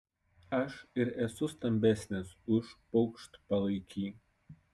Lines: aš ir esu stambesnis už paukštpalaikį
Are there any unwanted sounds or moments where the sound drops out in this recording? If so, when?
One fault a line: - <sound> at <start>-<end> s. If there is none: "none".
none